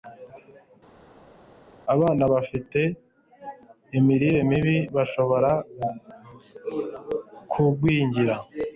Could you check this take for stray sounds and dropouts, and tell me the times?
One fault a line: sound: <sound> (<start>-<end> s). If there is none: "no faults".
no faults